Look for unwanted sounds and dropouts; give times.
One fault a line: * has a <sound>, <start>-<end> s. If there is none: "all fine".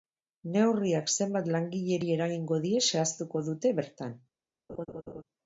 * has a laugh, 4.7-5.2 s